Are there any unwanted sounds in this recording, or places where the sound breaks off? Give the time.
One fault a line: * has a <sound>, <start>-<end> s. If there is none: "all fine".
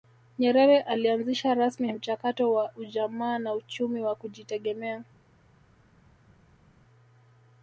all fine